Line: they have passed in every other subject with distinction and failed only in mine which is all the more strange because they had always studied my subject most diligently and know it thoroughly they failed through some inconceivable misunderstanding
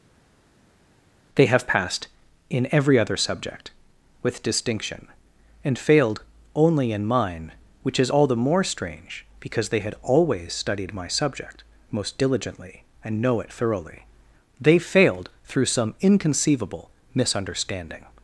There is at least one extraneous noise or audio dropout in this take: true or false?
false